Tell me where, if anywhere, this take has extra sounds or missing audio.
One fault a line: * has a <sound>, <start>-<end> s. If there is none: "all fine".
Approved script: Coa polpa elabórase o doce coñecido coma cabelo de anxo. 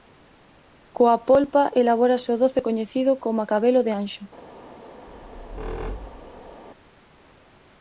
* has a squeak, 5.1-6.6 s